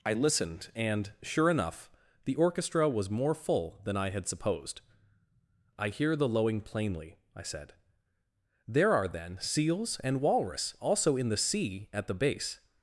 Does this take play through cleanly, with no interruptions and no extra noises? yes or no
yes